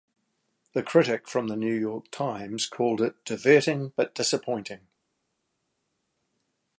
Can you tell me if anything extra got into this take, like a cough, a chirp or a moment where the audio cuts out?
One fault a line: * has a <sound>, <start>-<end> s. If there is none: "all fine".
all fine